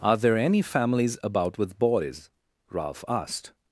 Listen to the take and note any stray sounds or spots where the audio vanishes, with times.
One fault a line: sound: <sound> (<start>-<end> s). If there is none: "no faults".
no faults